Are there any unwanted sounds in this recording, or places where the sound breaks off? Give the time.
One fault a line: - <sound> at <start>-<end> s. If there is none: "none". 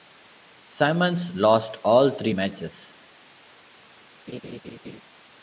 - laugh at 4.3-5.0 s